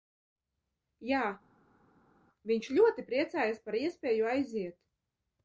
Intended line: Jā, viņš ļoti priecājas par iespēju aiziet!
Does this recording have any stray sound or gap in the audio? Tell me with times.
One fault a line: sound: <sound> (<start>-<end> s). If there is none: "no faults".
no faults